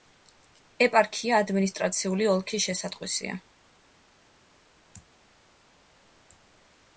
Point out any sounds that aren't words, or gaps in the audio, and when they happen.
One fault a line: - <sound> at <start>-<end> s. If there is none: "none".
none